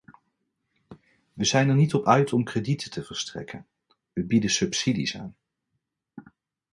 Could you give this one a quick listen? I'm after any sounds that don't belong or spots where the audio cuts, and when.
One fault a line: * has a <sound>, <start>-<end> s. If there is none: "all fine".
all fine